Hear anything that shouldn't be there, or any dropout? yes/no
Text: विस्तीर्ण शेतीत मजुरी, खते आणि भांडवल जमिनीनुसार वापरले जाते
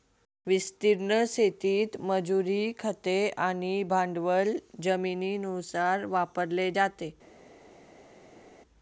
no